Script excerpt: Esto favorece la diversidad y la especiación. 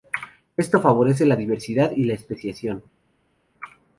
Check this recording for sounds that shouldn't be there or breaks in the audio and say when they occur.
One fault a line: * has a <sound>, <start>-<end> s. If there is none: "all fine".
all fine